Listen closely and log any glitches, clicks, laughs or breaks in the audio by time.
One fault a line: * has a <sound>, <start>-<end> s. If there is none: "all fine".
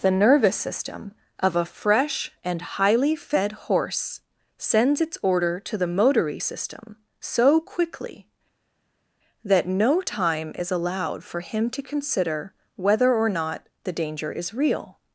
all fine